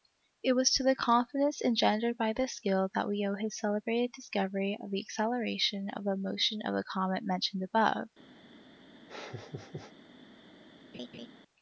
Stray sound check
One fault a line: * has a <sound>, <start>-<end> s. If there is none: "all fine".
* has a laugh, 9.1-9.9 s
* has a laugh, 10.9-11.3 s